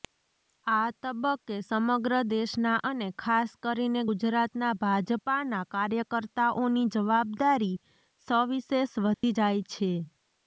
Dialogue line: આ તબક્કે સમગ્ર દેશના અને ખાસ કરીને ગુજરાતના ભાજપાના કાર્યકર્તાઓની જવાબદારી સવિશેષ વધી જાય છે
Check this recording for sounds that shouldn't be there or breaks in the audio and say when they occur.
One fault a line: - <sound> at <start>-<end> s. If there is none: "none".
- dropout at 9.1-9.2 s